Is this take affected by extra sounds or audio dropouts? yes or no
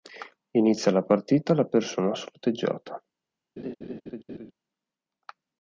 yes